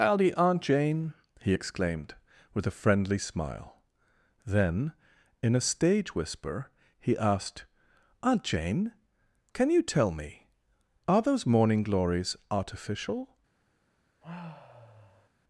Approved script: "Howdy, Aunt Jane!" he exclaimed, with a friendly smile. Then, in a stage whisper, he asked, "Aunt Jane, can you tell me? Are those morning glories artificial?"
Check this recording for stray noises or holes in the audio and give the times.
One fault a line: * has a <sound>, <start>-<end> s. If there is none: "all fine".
* has a sigh, 14.2-15.3 s